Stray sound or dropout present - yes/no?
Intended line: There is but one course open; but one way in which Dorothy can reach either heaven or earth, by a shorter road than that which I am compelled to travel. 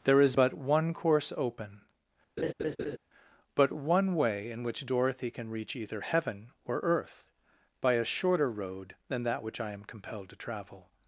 yes